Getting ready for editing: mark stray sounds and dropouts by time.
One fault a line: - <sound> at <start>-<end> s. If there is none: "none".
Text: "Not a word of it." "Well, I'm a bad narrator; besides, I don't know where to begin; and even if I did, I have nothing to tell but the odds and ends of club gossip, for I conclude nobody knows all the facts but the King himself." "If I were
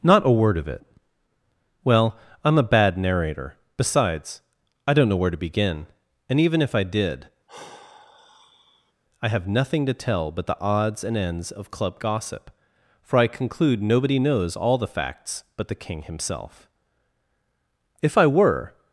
- sigh at 7.5-8.9 s